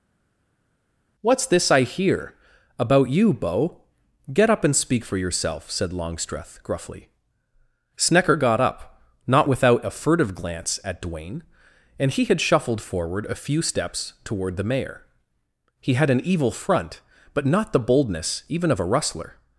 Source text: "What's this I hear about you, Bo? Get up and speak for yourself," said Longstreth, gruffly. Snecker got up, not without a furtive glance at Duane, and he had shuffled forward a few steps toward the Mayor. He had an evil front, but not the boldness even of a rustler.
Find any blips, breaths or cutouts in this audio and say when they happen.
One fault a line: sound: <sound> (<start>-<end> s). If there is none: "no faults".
no faults